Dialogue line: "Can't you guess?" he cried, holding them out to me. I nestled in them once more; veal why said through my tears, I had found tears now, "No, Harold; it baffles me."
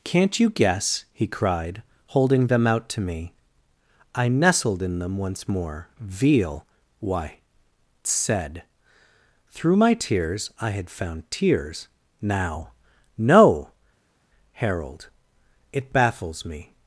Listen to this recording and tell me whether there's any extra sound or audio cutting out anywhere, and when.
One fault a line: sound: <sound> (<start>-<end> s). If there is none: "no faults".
no faults